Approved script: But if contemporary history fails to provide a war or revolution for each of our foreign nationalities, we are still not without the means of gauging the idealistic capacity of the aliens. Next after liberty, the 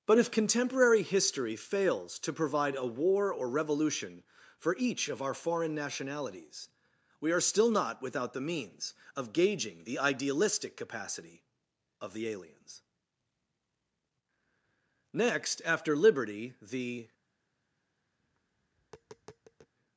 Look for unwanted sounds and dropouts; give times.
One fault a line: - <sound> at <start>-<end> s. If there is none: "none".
- tap at 18.2-19.7 s